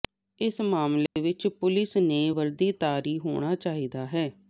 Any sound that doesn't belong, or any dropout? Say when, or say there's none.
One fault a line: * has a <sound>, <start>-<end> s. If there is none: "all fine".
* has a dropout, 1.1-1.2 s